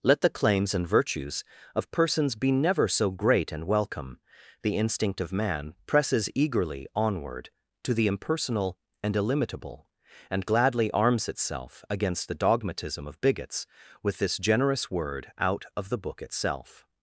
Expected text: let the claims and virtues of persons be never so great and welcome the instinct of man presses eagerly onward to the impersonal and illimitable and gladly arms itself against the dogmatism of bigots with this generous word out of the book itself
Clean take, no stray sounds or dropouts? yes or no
yes